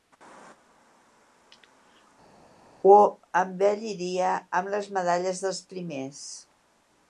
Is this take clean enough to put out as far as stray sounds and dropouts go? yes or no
yes